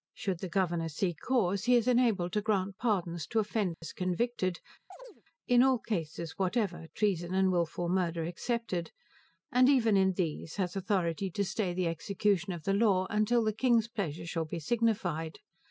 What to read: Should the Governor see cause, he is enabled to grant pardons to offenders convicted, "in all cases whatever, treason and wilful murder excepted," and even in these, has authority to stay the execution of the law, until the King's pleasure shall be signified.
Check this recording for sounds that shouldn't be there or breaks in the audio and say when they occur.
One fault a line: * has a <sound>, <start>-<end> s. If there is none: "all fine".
* has a dropout, 3.7-3.8 s
* has a chirp, 4.9-5.2 s